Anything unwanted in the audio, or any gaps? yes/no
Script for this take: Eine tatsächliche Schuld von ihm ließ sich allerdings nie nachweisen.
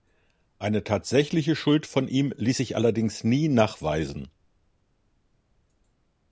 no